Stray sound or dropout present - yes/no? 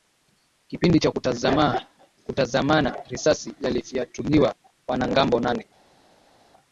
no